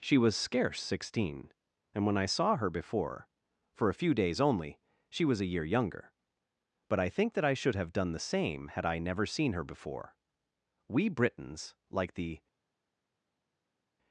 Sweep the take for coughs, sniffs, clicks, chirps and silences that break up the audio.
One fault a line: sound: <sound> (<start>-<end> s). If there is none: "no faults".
no faults